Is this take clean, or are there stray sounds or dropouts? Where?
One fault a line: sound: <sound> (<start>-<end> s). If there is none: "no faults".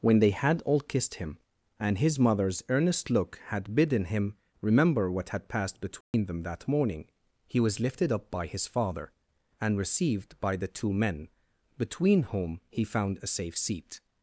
sound: dropout (6.0-6.1 s)